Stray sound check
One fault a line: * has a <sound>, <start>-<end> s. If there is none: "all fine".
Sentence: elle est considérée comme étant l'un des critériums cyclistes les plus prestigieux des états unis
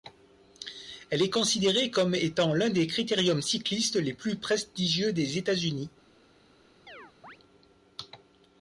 * has a chirp, 6.9-7.4 s